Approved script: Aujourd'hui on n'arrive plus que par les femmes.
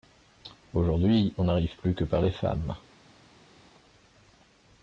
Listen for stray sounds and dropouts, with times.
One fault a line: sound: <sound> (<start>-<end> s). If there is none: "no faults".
no faults